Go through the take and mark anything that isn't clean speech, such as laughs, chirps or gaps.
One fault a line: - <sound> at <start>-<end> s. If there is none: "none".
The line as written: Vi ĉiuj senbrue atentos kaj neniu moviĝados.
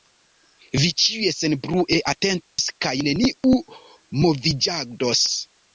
- dropout at 2.4-2.6 s